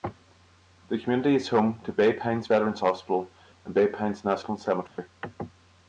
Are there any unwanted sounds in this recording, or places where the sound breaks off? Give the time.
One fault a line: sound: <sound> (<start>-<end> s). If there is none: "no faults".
sound: dropout (4.9-5.0 s)